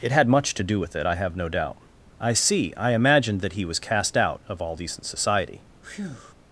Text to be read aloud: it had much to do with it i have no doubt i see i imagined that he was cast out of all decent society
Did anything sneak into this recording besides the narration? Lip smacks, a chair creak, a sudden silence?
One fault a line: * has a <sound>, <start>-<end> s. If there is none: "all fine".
* has a breath, 5.8-6.3 s